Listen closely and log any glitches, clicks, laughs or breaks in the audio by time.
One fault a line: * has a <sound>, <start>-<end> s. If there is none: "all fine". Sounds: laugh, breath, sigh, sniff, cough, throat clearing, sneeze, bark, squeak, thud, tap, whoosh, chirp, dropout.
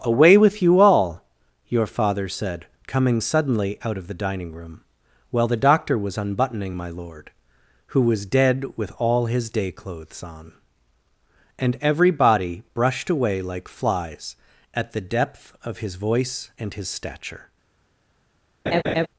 * has a laugh, 18.7-19.1 s